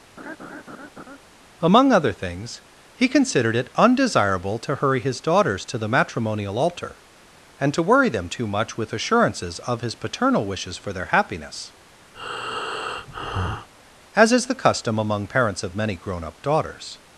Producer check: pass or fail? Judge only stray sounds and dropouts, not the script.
fail